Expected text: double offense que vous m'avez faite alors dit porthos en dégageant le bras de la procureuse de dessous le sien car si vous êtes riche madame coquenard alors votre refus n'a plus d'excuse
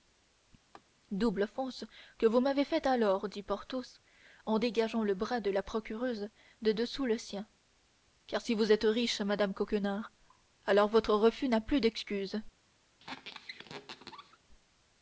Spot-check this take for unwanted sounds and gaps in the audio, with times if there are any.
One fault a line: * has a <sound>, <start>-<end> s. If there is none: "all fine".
* has a laugh, 0.7-0.8 s
* has a squeak, 13.0-14.4 s